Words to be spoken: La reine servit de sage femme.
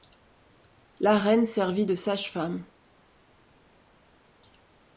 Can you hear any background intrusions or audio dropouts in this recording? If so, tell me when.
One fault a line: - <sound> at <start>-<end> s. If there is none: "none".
none